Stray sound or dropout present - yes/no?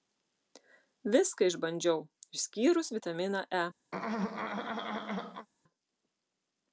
yes